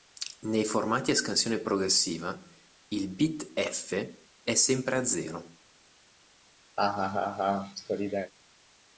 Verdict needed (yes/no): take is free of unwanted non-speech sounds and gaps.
no